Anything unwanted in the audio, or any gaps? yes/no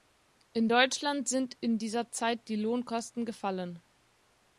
no